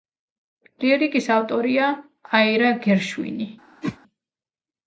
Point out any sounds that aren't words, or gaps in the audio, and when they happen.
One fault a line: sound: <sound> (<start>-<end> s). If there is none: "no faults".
sound: whoosh (3.8-4.0 s)